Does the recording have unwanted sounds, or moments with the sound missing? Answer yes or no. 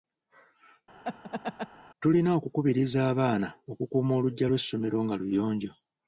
yes